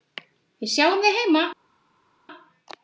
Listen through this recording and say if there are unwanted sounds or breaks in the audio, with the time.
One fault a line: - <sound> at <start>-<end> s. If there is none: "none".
none